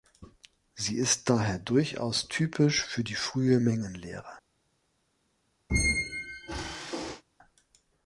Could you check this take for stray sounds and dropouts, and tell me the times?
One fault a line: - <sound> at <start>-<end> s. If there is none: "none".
- squeak at 5.7-7.2 s